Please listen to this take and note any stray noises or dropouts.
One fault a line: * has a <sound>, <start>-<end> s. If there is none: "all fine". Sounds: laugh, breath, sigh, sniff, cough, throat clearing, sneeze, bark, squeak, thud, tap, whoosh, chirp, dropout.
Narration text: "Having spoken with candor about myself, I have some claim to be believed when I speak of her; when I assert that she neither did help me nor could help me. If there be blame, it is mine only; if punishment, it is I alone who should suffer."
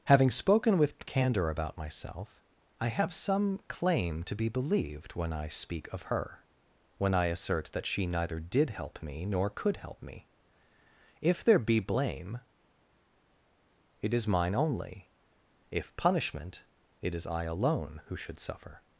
all fine